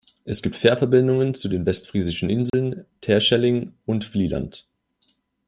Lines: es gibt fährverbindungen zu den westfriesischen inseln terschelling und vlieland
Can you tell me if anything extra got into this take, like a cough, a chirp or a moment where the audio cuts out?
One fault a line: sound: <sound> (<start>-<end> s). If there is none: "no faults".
sound: dropout (2.5-2.5 s)